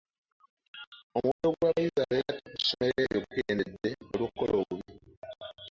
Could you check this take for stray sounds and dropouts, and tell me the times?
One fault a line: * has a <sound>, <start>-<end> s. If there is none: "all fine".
* has a dropout, 1.3-1.4 s